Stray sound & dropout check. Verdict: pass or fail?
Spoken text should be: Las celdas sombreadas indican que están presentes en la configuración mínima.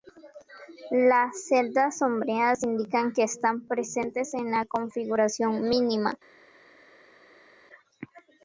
pass